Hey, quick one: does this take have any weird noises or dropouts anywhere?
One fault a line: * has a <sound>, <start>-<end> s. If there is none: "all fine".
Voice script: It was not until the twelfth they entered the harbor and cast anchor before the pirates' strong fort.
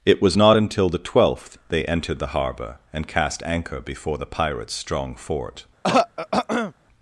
* has a throat clearing, 5.8-6.7 s